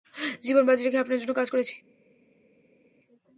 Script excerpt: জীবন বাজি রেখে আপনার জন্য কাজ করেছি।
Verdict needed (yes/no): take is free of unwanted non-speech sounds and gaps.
yes